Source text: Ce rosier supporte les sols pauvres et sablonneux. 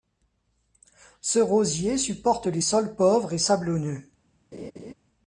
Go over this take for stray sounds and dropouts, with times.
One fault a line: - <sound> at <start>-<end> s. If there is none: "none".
- laugh at 4.5-4.9 s